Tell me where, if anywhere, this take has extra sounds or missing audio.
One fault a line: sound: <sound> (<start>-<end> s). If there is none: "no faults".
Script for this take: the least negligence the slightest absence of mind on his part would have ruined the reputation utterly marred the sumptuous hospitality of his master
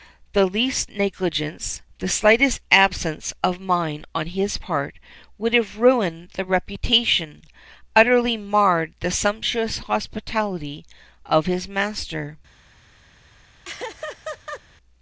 sound: laugh (13.6-14.6 s)